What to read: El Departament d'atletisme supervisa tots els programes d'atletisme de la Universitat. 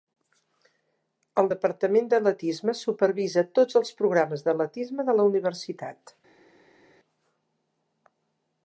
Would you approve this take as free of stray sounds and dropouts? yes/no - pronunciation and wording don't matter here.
yes